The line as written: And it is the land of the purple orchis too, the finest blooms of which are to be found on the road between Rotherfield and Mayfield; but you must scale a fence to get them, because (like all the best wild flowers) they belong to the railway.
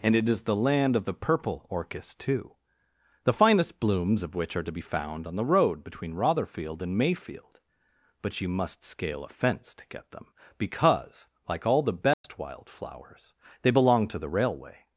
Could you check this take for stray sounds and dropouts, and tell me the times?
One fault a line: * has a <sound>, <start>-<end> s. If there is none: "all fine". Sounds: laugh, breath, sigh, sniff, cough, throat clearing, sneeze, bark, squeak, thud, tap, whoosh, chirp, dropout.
* has a dropout, 12.1-12.2 s